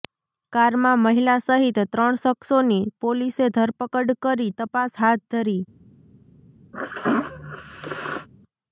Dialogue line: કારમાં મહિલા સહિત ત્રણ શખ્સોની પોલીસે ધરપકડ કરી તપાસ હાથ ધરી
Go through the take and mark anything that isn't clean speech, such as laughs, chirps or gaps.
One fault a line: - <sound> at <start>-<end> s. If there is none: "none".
- sneeze at 6.7-8.3 s